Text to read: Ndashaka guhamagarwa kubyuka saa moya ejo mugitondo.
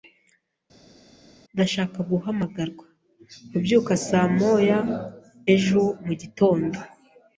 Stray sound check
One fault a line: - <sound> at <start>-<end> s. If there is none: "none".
none